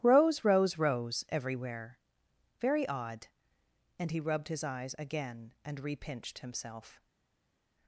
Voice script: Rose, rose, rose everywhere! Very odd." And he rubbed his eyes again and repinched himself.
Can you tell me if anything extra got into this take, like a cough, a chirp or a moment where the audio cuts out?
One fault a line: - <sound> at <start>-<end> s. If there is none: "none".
none